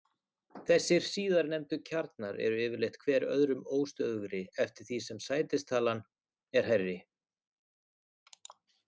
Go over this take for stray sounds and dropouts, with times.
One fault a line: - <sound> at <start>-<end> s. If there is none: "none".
none